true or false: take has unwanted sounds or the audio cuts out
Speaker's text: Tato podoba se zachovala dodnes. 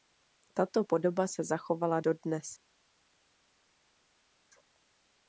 false